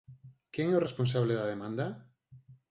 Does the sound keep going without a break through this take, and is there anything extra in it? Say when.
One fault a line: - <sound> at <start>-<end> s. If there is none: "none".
none